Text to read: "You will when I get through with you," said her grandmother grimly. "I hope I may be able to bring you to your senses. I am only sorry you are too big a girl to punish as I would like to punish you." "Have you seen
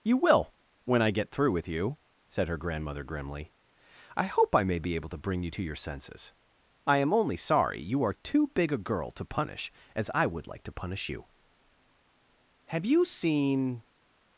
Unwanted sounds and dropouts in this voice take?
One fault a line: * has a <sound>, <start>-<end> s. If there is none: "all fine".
all fine